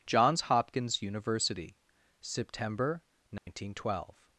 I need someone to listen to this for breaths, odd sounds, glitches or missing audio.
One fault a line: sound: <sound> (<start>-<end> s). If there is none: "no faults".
sound: dropout (3.4-3.5 s)